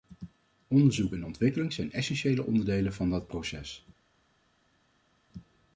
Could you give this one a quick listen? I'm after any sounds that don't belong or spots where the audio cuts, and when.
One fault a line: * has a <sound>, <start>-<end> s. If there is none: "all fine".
all fine